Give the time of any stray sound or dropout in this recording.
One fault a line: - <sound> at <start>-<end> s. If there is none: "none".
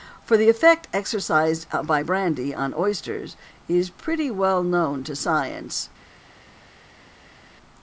none